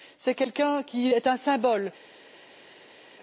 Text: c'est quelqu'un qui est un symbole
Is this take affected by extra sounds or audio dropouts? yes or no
no